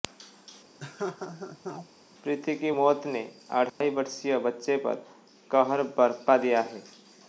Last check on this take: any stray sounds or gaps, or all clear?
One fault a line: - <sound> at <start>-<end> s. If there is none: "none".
- laugh at 0.8-1.9 s
- dropout at 3.7-3.8 s